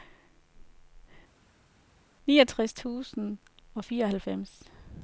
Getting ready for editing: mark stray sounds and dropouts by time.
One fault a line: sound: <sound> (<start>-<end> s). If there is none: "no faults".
no faults